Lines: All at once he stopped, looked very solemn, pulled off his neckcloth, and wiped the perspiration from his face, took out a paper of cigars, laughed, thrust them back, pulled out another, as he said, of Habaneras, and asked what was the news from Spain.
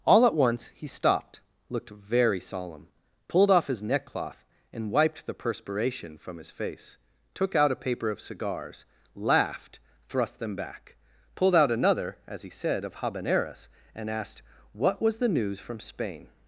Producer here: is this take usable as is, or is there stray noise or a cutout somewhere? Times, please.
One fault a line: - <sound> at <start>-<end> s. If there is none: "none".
none